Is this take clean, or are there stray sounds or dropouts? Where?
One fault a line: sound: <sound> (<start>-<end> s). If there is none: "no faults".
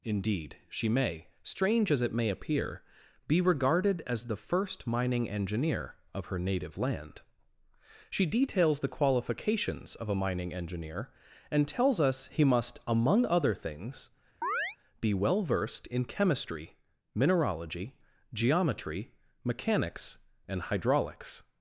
sound: chirp (14.4-14.8 s)